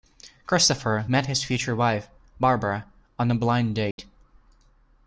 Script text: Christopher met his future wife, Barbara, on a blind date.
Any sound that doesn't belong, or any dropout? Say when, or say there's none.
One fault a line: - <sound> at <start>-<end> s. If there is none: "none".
- dropout at 3.9-4.0 s